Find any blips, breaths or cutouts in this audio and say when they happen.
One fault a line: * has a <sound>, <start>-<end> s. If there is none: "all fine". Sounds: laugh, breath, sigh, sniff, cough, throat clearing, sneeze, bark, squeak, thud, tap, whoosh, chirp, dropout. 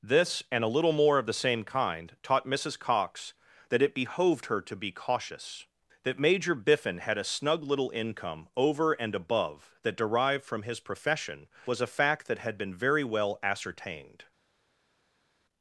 all fine